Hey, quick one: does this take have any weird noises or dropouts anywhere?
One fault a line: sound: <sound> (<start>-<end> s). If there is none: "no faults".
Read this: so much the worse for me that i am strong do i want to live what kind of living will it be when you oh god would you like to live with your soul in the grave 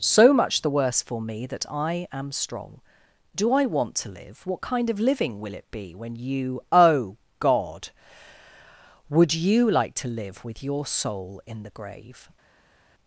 no faults